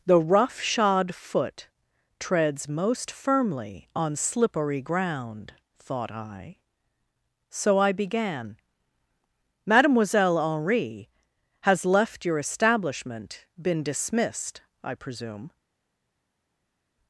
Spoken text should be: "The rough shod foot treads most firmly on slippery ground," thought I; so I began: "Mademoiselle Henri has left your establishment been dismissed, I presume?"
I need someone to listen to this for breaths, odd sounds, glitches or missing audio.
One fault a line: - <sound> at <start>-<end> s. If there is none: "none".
none